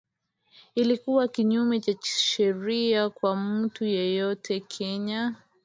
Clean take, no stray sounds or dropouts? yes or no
yes